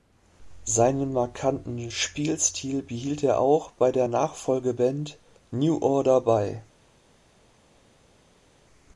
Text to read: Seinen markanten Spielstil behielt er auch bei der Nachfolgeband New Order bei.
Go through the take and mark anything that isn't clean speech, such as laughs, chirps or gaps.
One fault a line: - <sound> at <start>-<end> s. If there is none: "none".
none